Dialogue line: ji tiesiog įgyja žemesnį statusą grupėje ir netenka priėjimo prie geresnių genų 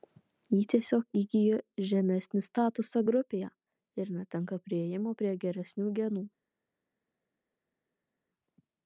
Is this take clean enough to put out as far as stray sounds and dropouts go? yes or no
yes